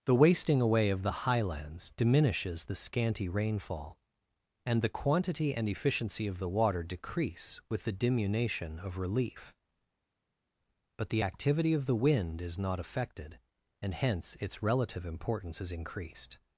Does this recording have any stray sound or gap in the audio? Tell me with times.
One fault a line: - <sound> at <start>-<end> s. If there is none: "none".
none